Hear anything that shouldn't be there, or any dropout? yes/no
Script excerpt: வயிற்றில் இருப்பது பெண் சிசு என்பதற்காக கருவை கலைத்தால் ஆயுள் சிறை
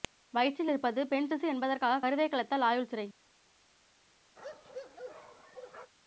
yes